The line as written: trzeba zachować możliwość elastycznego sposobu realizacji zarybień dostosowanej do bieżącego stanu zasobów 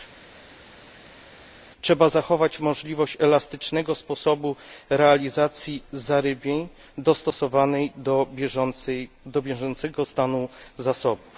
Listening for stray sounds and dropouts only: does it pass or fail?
pass